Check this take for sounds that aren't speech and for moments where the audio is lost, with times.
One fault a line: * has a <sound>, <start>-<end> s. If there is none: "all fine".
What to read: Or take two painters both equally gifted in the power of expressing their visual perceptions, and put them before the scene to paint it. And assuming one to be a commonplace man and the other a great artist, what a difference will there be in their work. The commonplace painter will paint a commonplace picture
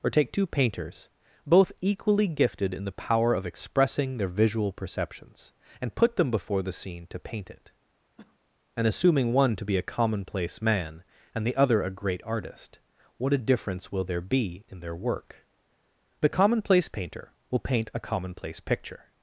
* has a cough, 8.2-8.4 s